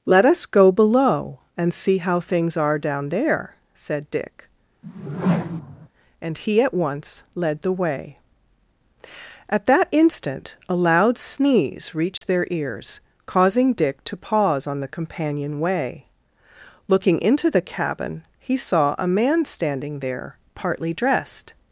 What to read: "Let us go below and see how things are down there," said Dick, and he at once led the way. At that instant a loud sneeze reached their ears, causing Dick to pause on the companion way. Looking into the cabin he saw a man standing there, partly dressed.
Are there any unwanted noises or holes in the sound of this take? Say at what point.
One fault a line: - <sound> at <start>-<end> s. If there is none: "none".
- whoosh at 4.8-5.9 s
- dropout at 12.2-12.2 s